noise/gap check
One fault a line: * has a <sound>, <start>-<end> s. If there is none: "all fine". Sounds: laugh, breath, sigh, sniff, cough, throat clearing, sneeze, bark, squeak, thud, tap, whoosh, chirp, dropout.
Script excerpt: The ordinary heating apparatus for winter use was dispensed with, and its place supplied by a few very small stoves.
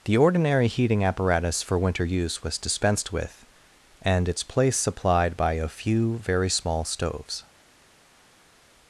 all fine